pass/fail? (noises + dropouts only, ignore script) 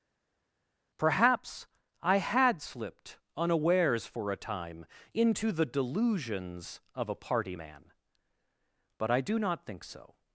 pass